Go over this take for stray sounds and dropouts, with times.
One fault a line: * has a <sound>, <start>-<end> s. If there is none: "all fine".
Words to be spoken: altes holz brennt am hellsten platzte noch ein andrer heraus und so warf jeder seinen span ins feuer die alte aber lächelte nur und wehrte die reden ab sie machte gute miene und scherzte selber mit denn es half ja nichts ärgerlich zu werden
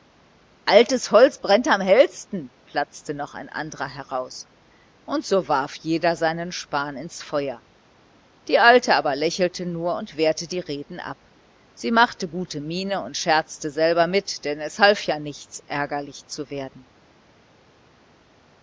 all fine